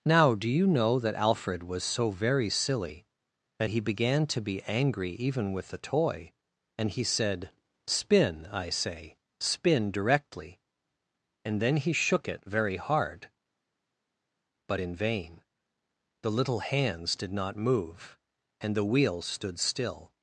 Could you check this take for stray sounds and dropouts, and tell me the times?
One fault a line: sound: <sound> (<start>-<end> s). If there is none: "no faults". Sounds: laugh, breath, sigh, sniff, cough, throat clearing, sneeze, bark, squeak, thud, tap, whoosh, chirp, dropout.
no faults